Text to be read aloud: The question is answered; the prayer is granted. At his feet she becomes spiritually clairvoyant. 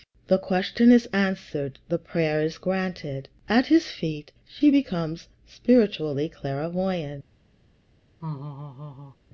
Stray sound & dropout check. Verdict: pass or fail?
fail